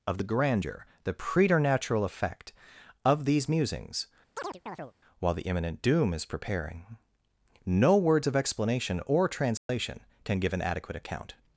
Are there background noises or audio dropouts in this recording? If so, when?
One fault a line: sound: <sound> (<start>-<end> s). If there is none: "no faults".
sound: chirp (4.4-4.9 s)
sound: dropout (9.6-9.7 s)